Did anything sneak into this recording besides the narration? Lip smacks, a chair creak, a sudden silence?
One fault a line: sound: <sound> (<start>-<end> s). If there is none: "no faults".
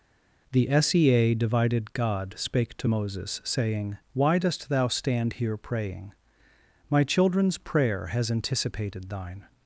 no faults